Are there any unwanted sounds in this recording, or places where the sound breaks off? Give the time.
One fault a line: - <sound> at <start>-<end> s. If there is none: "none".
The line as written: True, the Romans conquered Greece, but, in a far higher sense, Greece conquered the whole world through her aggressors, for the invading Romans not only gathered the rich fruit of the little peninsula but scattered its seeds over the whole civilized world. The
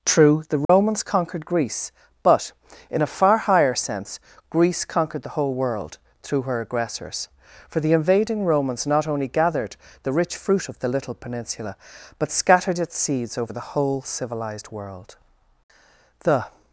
- dropout at 0.6-0.7 s